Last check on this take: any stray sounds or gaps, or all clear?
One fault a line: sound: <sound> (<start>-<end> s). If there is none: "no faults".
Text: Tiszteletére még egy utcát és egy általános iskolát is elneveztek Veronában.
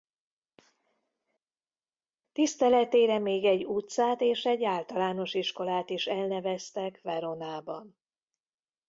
no faults